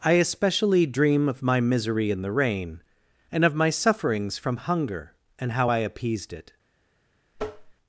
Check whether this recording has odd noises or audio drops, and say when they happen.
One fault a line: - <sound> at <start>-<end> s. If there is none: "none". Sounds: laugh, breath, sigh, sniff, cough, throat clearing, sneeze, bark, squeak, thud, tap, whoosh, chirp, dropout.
- tap at 7.4-7.7 s